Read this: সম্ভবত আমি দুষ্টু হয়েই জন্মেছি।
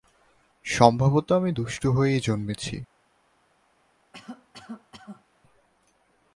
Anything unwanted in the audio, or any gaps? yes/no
yes